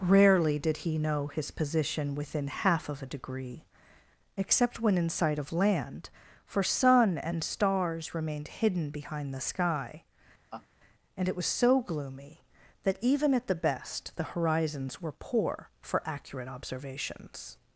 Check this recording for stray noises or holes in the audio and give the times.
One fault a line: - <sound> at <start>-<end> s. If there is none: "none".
- laugh at 10.5-10.7 s